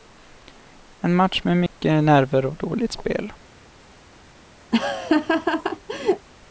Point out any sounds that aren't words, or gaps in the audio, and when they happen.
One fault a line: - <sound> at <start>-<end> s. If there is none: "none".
- dropout at 1.7-1.7 s
- laugh at 4.7-6.3 s